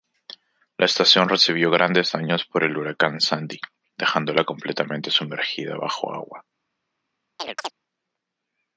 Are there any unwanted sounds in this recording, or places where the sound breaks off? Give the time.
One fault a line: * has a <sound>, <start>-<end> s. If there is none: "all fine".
* has a chirp, 7.4-7.7 s